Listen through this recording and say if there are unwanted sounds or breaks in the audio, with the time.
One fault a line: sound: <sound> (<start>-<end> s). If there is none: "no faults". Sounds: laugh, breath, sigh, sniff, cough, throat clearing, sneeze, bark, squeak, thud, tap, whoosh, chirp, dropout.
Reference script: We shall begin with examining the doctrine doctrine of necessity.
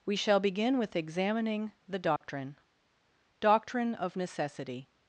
sound: dropout (2.2-2.2 s)